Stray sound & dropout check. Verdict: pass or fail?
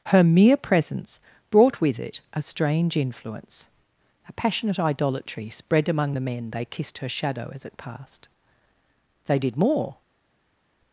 pass